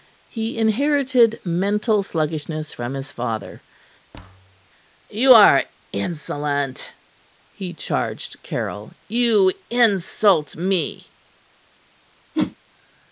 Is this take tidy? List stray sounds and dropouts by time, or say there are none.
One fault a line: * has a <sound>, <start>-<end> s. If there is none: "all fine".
* has a thud, 4.1-4.7 s
* has a whoosh, 12.3-12.6 s